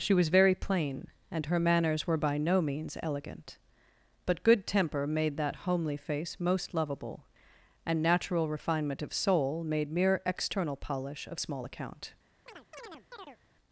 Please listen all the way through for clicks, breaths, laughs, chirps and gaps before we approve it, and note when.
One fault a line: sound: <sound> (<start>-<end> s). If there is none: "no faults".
sound: chirp (12.5-13.4 s)